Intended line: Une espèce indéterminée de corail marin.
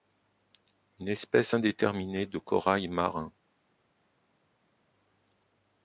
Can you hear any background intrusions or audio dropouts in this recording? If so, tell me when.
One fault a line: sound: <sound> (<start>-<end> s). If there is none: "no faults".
no faults